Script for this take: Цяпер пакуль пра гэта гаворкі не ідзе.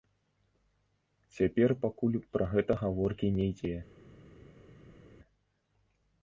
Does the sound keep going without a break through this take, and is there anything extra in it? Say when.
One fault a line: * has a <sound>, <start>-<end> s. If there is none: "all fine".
all fine